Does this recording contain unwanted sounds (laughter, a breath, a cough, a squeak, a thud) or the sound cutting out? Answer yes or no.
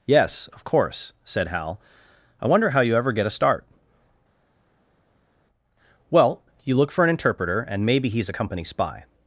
no